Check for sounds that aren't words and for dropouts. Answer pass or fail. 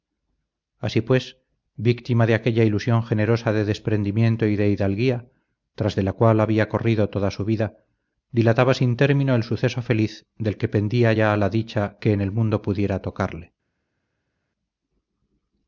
pass